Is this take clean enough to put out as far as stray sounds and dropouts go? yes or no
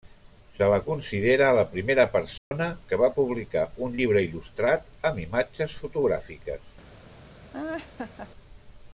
no